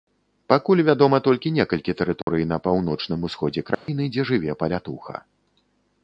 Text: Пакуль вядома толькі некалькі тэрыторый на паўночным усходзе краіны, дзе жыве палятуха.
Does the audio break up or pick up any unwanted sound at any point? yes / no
yes